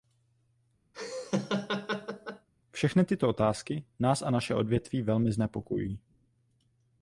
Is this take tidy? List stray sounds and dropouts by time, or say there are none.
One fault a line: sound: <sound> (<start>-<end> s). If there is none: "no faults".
sound: laugh (0.9-2.5 s)